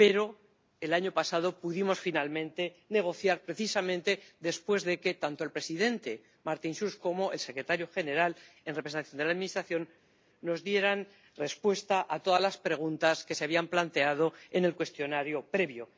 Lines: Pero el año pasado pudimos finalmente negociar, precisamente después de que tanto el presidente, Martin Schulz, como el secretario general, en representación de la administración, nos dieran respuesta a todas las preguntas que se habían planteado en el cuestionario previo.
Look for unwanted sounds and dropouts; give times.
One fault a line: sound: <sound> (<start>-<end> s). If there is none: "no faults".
no faults